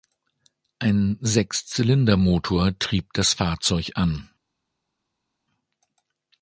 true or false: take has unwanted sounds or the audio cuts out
false